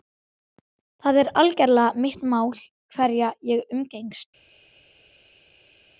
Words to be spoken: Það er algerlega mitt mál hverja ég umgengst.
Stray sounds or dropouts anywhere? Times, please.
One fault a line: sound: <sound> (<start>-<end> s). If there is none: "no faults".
no faults